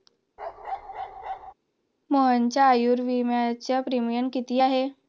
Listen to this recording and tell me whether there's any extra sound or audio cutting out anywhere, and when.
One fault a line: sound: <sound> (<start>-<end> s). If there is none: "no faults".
sound: bark (0.4-1.5 s)